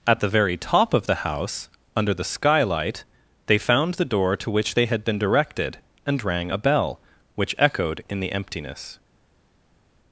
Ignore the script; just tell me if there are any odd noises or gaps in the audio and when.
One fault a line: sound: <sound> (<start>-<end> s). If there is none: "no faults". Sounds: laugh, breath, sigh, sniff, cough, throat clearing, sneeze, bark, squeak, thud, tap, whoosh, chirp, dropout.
no faults